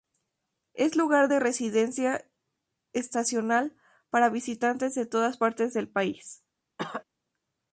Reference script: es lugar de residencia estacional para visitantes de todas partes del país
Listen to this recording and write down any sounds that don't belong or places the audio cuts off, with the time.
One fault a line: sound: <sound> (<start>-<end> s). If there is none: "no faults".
sound: cough (6.8-7.0 s)